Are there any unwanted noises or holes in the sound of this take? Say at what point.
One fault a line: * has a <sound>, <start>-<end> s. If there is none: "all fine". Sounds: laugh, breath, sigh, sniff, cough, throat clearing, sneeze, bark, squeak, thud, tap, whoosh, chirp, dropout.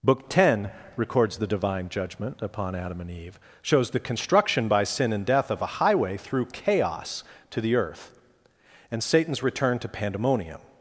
all fine